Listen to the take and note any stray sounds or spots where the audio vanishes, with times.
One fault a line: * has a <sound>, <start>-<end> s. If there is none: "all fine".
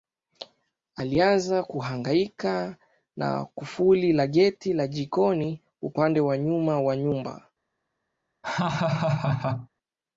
* has a laugh, 8.4-9.7 s